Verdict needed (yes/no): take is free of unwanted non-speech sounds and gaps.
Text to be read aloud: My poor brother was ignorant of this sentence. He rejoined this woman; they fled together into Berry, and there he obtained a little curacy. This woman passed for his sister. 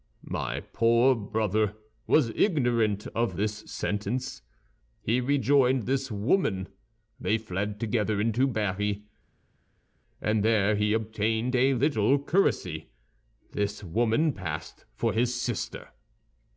yes